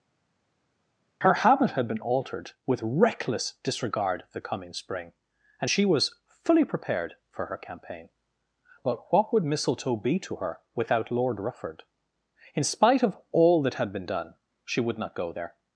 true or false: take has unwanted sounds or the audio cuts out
false